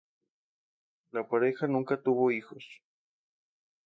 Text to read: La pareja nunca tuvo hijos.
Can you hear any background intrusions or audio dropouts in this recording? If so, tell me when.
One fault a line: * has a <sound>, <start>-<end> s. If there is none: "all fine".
all fine